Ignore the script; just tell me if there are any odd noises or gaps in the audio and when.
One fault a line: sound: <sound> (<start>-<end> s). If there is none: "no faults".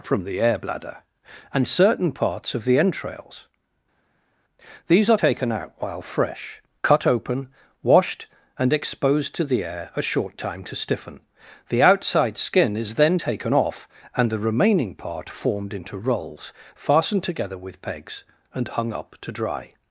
no faults